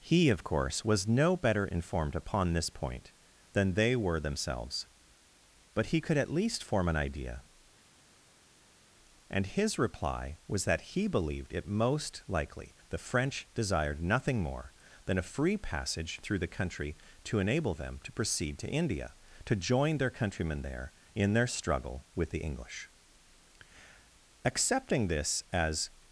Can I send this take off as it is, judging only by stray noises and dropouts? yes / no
yes